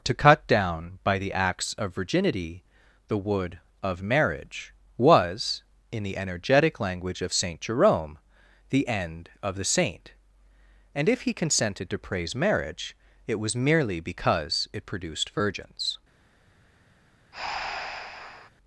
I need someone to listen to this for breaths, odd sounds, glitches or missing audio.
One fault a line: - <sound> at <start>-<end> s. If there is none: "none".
- breath at 17.3-18.5 s